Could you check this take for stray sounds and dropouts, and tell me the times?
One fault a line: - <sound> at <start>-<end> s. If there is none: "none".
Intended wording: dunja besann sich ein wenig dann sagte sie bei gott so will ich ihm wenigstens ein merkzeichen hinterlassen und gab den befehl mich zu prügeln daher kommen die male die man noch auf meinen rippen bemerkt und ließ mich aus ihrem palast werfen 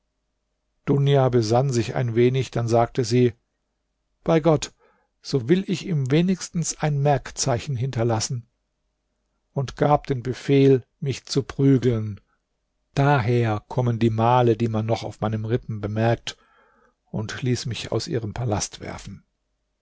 none